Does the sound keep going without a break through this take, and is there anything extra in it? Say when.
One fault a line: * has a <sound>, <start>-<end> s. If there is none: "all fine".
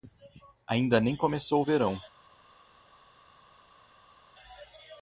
all fine